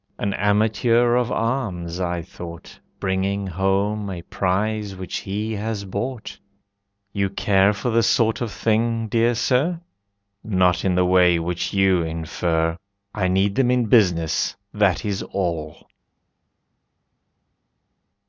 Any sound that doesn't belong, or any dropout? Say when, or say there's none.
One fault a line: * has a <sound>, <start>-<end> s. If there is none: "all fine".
all fine